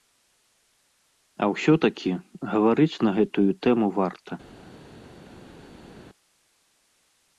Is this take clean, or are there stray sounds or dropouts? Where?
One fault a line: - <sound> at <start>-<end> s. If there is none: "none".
none